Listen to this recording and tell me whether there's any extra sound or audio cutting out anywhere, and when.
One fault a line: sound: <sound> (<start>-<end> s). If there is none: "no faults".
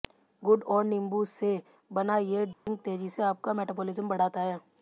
sound: dropout (2.5-2.7 s)